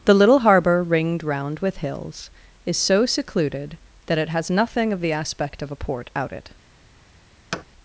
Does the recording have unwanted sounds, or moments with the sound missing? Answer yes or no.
yes